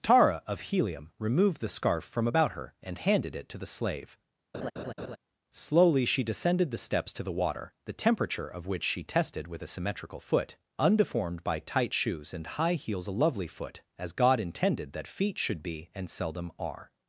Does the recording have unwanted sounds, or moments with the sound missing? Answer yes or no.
yes